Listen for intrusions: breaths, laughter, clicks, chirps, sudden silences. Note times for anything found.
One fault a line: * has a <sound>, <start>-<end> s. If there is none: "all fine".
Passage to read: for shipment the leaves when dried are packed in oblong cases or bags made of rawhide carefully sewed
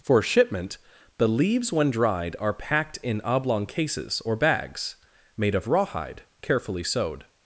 all fine